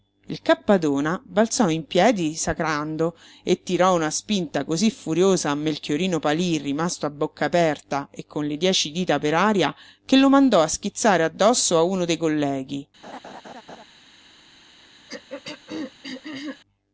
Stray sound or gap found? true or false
true